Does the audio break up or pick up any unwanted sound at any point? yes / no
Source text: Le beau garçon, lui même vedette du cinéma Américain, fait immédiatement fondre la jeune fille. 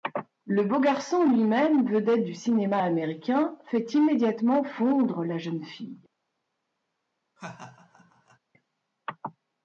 yes